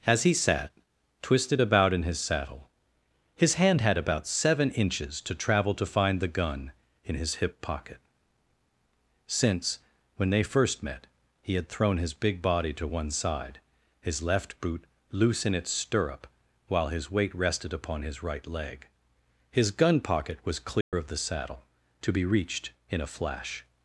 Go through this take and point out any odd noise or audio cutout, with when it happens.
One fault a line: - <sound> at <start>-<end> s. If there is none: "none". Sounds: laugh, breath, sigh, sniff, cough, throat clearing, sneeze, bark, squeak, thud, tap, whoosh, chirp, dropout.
- dropout at 20.8-20.9 s